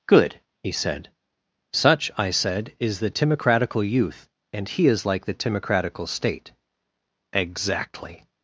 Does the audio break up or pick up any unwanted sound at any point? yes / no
no